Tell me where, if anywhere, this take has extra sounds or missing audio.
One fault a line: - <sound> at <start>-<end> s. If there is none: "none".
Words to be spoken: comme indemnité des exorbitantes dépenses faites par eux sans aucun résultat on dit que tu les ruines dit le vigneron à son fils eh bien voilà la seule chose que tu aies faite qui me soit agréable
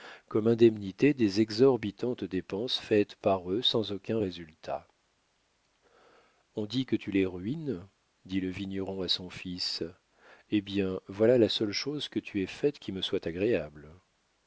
none